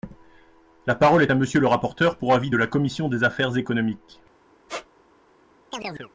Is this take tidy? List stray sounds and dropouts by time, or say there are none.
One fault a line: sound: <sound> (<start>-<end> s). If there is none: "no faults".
sound: squeak (4.7-4.9 s)
sound: chirp (5.7-6.1 s)